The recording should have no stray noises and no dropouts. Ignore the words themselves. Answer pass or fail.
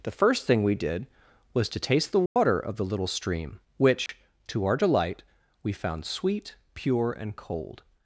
fail